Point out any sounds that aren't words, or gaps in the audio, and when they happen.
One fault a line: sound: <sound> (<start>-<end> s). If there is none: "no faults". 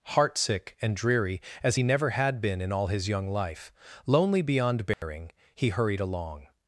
sound: dropout (4.9-5.0 s)